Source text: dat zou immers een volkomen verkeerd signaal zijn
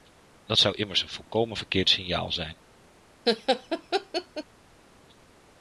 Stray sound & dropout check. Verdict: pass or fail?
fail